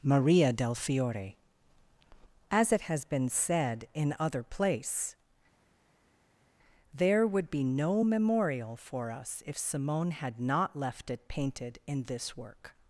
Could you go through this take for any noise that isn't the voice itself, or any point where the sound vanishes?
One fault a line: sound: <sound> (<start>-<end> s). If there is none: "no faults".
no faults